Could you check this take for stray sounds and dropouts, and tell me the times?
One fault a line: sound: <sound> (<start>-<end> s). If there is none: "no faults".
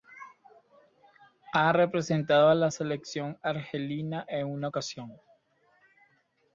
no faults